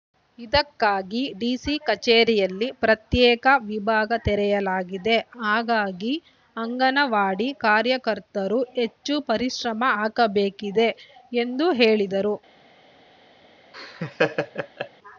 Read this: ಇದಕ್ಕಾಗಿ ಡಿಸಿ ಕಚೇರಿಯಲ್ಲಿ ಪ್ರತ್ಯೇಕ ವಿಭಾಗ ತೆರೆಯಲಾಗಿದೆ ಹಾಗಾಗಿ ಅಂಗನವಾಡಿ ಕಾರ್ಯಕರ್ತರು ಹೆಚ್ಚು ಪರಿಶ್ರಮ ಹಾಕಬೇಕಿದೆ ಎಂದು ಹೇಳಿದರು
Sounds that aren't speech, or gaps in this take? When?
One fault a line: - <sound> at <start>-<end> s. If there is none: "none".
- laugh at 13.7-14.9 s